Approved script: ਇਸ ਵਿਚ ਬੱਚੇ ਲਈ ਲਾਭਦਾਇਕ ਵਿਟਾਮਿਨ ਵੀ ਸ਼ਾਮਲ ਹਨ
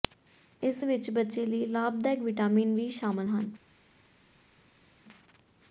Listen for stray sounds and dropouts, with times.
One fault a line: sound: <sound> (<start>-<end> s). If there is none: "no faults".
no faults